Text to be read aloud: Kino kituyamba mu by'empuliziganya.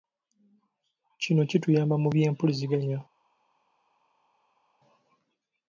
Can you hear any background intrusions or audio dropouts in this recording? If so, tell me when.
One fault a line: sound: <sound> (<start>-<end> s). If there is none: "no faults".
no faults